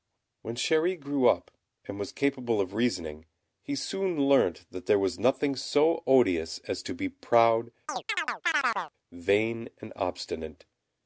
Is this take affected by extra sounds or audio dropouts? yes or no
yes